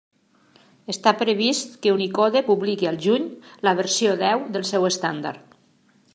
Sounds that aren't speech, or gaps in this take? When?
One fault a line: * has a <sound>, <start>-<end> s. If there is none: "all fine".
all fine